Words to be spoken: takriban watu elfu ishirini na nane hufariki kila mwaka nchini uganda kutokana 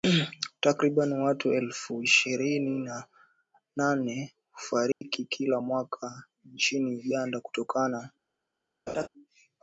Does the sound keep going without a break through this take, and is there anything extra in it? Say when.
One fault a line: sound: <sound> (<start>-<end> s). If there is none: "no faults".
sound: dropout (4.9-5.0 s)
sound: laugh (8.9-9.1 s)